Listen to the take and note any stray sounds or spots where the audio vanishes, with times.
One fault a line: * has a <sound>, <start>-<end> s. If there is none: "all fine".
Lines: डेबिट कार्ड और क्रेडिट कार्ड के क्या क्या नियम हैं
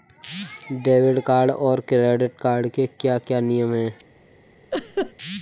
* has a laugh, 4.7-5.1 s